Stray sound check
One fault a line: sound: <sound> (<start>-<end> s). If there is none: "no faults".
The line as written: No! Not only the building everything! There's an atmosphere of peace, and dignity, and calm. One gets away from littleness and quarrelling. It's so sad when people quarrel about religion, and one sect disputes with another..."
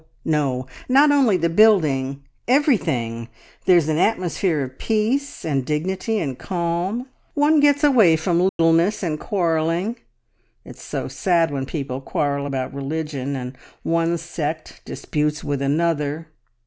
sound: dropout (8.5-8.6 s)